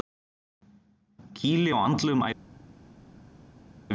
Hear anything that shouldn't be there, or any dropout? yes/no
no